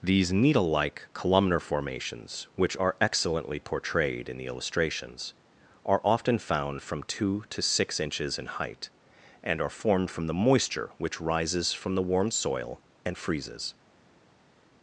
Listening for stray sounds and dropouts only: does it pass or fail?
pass